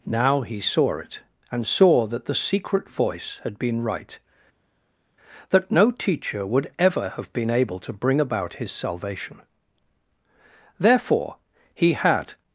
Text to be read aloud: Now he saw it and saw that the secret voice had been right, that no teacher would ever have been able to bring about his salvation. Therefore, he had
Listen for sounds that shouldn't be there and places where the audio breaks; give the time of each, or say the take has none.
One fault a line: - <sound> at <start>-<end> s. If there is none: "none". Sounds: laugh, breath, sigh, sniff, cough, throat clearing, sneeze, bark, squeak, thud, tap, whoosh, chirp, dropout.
none